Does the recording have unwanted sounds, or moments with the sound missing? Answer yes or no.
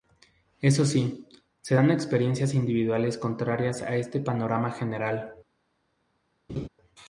yes